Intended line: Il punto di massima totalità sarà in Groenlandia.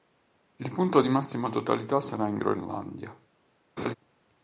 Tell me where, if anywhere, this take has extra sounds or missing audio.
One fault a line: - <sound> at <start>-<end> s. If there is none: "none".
- laugh at 3.8-3.9 s